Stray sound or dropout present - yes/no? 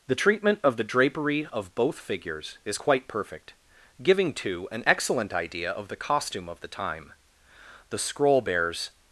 no